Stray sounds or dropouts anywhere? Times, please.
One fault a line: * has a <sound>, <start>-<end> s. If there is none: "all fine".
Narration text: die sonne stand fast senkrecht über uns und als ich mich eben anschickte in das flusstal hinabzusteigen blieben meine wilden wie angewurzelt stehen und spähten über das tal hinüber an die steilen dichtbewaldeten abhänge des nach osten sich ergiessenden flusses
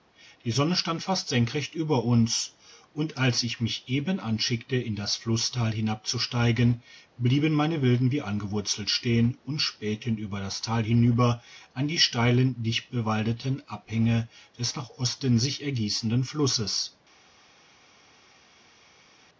all fine